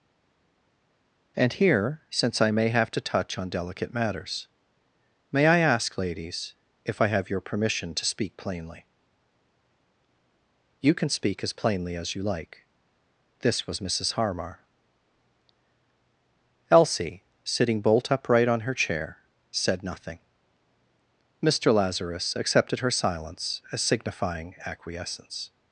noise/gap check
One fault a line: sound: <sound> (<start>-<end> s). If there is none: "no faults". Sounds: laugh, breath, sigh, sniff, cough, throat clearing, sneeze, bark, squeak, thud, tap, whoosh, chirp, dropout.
no faults